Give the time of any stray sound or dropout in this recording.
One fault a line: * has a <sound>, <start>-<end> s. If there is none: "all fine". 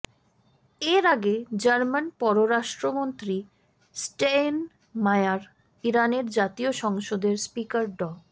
all fine